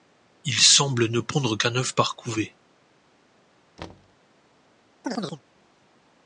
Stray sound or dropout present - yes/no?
yes